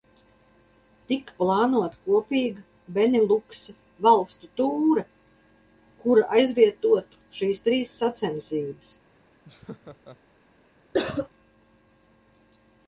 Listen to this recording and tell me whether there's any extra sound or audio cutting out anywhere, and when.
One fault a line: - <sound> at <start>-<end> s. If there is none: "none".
- laugh at 9.4-10.2 s
- cough at 10.9-11.3 s